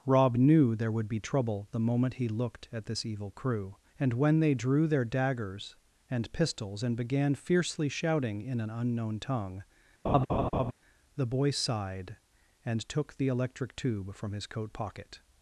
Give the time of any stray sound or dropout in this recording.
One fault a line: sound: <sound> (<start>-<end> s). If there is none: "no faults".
sound: laugh (10.0-10.7 s)